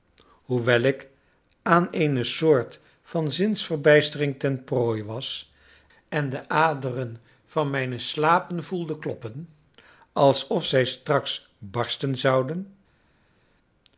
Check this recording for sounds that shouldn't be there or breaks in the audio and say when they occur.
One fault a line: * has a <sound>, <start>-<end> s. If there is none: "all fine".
all fine